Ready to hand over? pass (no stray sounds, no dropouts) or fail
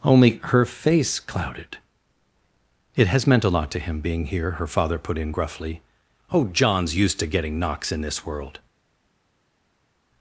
pass